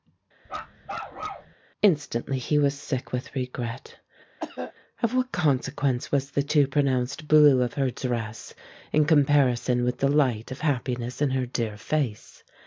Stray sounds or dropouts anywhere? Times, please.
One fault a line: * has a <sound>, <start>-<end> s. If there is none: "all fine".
* has a bark, 0.5-1.5 s
* has a cough, 4.4-4.7 s